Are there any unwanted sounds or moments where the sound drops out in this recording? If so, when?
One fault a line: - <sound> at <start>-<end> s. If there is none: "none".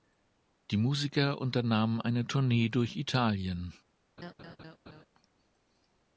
- laugh at 4.2-5.1 s